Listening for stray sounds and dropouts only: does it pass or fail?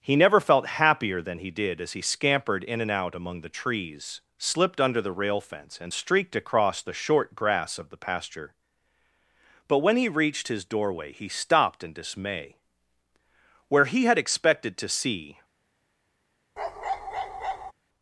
fail